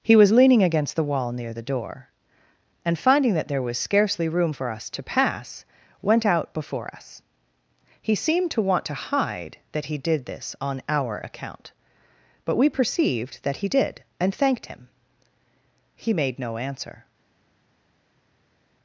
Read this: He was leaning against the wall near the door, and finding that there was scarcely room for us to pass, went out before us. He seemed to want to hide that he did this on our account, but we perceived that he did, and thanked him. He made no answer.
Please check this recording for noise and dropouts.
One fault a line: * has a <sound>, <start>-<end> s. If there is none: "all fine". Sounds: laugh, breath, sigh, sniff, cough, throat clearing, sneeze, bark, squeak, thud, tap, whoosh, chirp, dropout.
all fine